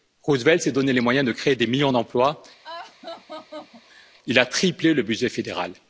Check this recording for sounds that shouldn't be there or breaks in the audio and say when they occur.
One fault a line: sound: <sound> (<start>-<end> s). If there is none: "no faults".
sound: laugh (2.6-4.1 s)